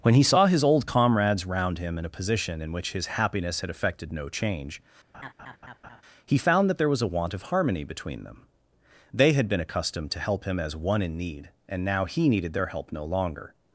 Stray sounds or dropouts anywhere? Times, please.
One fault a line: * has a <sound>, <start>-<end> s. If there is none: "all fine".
* has a laugh, 5.1-6.0 s